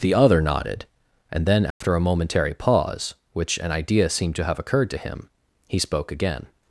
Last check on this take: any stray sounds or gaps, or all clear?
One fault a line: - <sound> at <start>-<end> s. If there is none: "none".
- dropout at 1.7-1.8 s